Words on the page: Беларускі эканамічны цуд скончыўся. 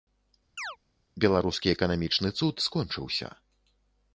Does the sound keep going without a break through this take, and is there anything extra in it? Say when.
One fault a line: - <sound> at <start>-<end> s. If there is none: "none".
- chirp at 0.6-0.8 s